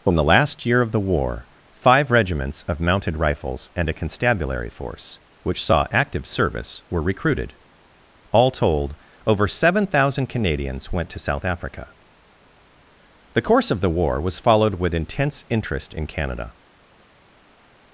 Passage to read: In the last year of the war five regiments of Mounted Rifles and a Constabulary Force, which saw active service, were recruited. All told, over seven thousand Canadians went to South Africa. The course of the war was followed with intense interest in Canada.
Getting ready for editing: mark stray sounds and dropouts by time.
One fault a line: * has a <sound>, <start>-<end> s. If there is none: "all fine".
all fine